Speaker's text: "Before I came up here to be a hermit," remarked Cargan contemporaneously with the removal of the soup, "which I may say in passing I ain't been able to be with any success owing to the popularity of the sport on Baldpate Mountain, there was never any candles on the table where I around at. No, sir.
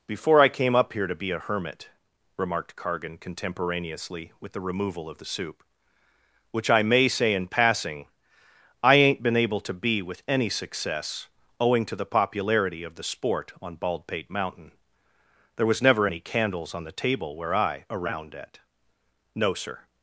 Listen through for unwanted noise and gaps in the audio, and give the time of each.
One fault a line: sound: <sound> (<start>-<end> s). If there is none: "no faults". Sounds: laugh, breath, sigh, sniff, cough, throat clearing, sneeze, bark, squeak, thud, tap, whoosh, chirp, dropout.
no faults